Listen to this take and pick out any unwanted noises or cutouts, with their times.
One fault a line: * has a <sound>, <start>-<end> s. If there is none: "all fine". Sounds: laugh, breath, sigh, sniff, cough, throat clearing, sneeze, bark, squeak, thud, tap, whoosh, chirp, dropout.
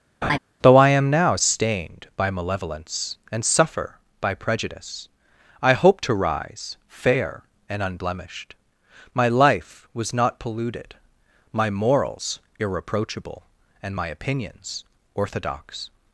* has a laugh, 0.2-0.4 s